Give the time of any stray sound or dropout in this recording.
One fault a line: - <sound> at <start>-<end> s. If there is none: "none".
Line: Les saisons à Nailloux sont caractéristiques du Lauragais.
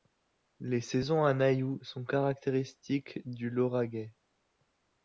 none